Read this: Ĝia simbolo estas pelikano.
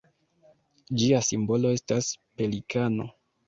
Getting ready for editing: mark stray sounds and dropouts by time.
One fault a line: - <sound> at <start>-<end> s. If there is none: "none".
none